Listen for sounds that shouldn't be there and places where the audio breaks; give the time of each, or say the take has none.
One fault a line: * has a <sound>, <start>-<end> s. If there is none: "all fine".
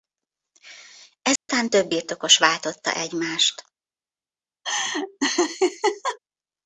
* has a dropout, 1.4-1.5 s
* has a laugh, 4.6-6.2 s